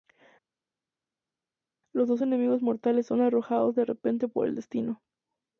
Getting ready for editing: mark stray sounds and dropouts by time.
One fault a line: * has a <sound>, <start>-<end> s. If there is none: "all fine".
all fine